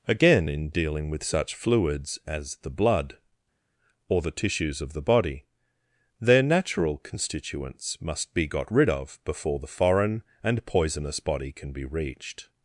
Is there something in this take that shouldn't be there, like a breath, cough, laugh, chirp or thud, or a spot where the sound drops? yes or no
no